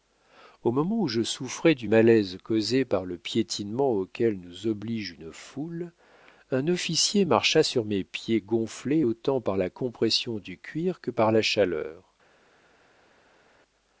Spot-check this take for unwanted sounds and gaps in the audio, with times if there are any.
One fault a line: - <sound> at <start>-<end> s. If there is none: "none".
none